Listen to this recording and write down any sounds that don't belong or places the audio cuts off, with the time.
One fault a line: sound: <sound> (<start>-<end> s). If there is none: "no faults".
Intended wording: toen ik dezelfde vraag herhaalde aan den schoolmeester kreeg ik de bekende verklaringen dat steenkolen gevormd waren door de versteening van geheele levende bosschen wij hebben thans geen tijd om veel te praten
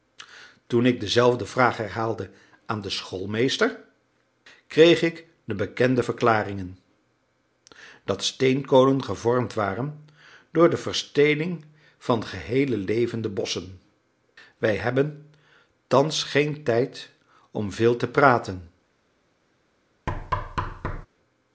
sound: thud (20.1-21.1 s)